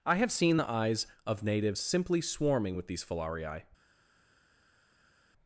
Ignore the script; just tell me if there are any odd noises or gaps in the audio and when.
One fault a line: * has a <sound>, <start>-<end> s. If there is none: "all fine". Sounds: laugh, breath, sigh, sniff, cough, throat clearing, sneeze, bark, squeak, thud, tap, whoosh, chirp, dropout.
all fine